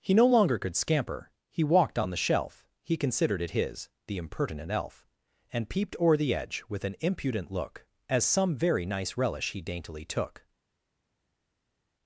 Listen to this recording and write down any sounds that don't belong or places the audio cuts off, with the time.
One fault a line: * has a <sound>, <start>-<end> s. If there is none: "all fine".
all fine